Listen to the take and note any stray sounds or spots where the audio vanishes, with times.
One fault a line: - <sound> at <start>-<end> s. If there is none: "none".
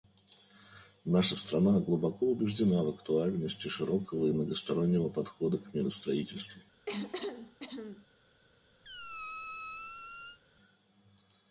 - cough at 6.9-8.1 s
- squeak at 8.8-10.4 s